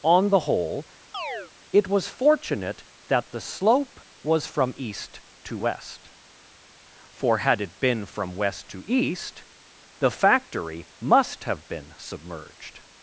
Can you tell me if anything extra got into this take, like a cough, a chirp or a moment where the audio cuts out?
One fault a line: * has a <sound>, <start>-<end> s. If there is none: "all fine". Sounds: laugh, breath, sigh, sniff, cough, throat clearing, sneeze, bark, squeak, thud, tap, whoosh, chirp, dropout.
* has a chirp, 1.1-1.5 s